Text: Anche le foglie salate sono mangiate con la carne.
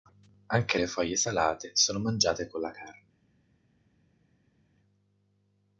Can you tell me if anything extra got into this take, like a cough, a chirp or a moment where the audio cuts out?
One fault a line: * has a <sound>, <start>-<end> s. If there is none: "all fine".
all fine